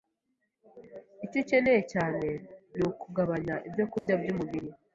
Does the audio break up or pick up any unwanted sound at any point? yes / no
yes